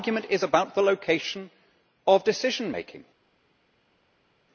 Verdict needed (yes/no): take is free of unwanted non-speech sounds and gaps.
yes